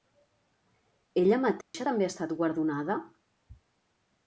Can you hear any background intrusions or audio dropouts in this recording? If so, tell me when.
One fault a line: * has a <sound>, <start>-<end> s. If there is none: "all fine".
* has a dropout, 1.6-1.7 s